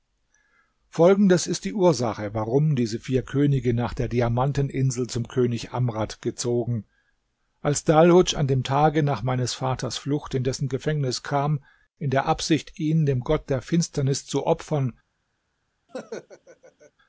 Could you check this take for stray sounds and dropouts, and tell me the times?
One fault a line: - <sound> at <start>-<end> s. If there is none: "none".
- laugh at 15.9-16.9 s